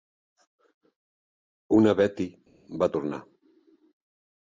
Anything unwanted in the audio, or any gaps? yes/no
no